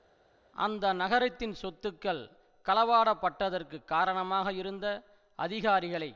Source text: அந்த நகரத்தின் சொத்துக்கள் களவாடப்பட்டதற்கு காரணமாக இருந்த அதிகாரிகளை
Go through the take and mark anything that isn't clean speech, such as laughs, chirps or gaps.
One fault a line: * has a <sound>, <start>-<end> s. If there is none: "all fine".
all fine